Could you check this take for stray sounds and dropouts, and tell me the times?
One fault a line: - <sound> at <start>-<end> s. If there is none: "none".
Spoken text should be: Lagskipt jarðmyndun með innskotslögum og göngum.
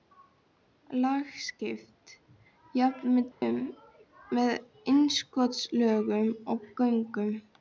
- dropout at 3.3-3.4 s